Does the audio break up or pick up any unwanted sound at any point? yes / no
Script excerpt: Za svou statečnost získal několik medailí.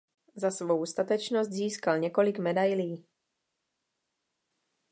no